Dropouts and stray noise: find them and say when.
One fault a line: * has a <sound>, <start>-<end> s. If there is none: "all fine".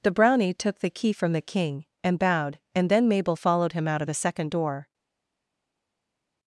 all fine